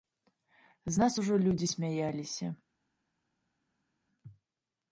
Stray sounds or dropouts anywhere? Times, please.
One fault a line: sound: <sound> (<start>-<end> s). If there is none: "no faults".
no faults